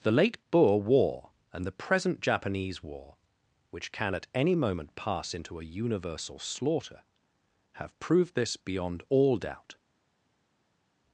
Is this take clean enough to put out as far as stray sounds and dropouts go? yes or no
yes